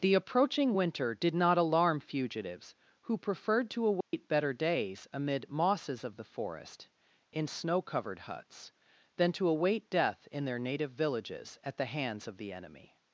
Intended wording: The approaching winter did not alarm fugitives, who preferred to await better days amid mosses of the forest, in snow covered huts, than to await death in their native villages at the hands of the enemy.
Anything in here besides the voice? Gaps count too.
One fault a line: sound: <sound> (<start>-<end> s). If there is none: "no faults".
sound: dropout (4.0-4.1 s)